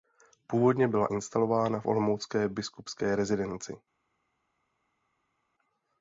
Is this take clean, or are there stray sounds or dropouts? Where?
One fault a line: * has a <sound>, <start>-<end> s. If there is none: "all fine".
all fine